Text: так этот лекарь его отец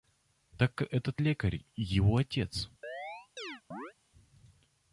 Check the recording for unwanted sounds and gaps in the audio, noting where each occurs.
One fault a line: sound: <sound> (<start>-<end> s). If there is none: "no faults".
sound: chirp (2.8-3.9 s)